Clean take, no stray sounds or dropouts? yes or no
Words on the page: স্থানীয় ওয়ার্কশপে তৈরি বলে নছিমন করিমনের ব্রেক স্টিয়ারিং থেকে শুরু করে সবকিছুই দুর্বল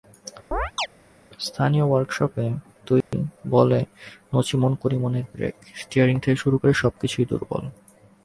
no